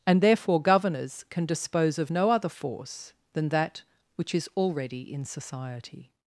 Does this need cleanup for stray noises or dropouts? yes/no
no